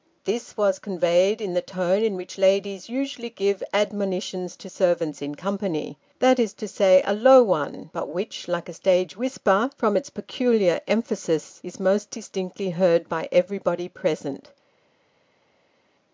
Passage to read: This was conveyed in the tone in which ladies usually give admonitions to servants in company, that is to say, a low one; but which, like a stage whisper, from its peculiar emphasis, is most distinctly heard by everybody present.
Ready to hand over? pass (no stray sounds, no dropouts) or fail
pass